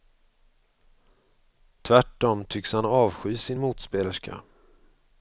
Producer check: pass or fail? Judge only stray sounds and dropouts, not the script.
pass